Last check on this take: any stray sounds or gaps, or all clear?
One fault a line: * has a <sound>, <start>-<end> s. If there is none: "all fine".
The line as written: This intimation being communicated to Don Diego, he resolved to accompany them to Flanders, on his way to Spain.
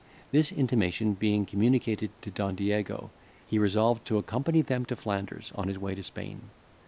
all fine